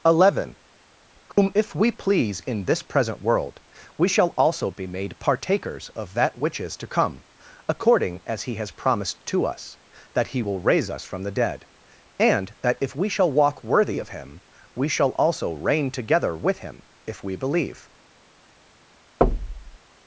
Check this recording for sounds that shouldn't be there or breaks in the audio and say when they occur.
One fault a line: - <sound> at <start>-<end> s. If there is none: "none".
- dropout at 1.3-1.4 s
- thud at 19.2-19.8 s